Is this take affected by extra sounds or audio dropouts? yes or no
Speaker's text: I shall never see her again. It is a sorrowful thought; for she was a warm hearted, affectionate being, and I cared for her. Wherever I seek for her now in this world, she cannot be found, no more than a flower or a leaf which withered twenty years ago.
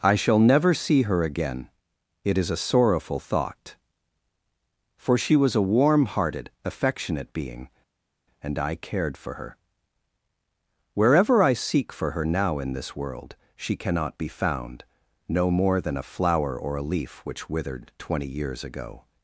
no